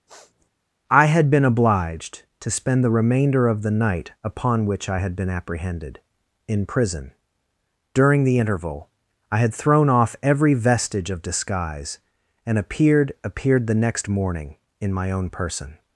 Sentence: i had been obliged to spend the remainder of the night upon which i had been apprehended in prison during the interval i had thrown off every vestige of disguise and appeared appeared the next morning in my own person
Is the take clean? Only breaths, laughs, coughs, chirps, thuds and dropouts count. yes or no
no